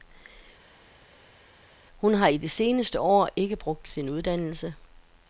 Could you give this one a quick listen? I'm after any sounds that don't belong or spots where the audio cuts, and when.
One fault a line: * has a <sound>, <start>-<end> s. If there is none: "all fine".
all fine